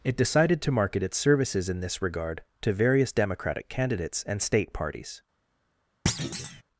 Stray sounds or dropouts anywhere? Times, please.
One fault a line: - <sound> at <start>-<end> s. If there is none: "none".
- thud at 6.1-6.6 s